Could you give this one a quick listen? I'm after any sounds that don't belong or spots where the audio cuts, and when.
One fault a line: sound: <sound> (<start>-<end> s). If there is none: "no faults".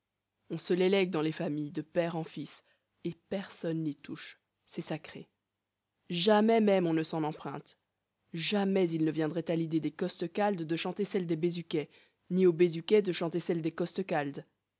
no faults